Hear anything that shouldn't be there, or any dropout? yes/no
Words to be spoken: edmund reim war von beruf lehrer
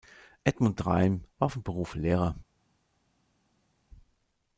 no